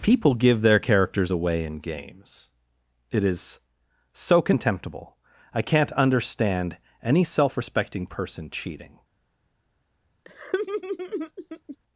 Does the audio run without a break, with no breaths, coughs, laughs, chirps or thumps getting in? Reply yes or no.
no